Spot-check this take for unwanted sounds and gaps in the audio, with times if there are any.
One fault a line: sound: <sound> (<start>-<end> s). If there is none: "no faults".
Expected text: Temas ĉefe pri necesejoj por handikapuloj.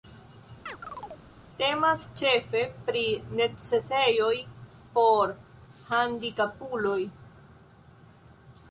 sound: chirp (0.7-1.3 s)